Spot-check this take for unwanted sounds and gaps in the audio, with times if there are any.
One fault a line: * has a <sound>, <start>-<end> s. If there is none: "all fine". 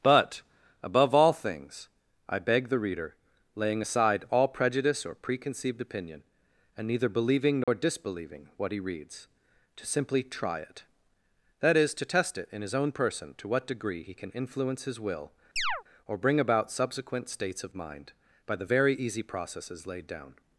* has a dropout, 7.6-7.7 s
* has a chirp, 15.6-15.8 s